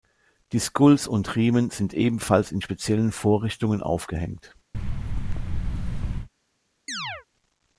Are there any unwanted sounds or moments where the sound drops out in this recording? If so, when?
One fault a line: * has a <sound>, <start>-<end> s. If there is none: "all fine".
* has a thud, 4.7-6.3 s
* has a chirp, 6.9-7.3 s